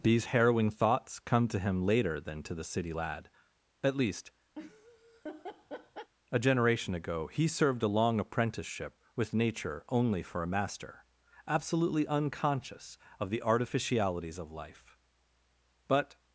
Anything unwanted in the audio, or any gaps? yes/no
yes